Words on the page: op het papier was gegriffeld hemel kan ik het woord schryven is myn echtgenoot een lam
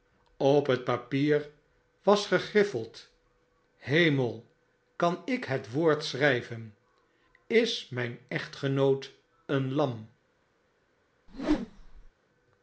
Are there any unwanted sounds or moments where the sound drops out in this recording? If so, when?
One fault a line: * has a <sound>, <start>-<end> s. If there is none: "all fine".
* has a whoosh, 11.3-12.1 s